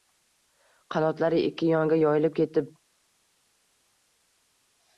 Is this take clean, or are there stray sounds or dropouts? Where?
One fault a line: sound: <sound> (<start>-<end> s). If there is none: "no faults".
no faults